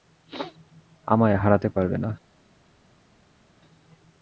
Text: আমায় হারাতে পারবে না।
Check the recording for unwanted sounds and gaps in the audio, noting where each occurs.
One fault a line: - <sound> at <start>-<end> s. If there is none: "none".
none